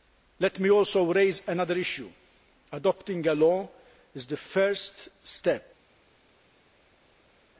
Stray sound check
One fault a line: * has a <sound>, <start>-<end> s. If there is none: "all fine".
all fine